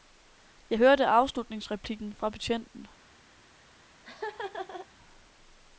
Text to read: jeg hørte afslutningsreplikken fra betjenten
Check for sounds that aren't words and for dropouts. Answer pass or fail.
fail